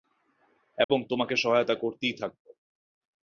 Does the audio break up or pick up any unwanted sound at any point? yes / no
yes